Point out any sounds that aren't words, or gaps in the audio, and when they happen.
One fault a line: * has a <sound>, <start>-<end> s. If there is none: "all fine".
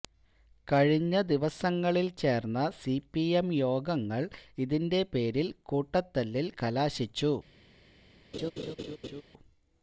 * has a laugh, 8.3-9.2 s